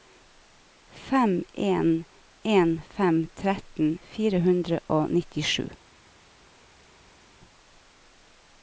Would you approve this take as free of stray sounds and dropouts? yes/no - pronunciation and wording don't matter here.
yes